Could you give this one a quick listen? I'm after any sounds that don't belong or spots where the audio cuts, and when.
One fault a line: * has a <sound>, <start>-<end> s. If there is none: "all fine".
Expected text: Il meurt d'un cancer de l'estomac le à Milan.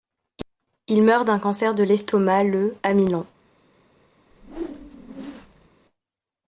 * has a whoosh, 4.3-5.7 s